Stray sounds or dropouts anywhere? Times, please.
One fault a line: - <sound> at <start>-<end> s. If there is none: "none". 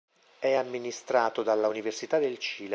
none